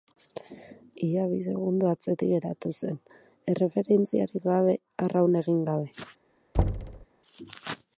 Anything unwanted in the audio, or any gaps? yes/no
yes